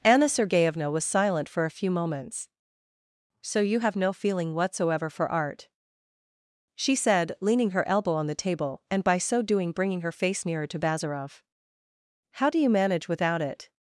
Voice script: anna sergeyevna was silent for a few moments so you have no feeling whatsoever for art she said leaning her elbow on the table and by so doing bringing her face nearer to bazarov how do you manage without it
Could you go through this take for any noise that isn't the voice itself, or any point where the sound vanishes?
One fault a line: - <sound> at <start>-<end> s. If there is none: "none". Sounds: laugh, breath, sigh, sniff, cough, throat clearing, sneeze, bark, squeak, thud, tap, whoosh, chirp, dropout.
none